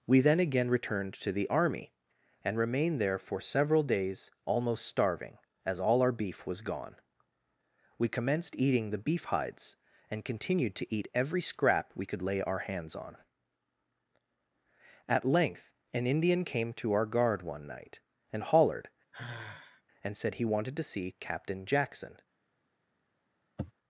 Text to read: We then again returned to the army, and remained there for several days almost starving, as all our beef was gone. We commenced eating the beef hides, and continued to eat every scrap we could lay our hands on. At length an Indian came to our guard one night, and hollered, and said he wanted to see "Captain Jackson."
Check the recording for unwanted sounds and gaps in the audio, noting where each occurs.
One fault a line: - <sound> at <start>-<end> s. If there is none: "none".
- sigh at 19.1-19.8 s
- sniff at 23.6-23.7 s